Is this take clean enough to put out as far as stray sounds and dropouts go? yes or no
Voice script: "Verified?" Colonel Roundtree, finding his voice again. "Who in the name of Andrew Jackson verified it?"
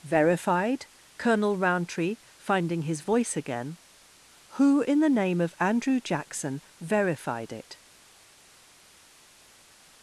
yes